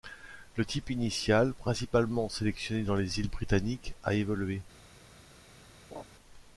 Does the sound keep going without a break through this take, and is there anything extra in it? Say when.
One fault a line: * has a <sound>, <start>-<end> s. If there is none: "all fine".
* has a laugh, 5.9-6.0 s